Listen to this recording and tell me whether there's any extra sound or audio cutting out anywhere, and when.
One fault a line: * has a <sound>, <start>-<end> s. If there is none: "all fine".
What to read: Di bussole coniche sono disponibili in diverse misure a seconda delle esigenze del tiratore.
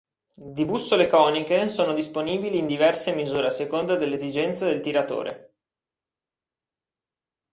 all fine